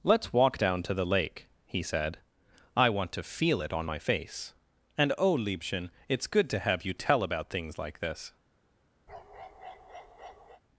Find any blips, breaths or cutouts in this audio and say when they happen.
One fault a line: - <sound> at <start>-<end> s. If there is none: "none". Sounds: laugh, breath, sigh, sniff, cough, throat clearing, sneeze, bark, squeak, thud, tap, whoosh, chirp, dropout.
- bark at 9.1-10.6 s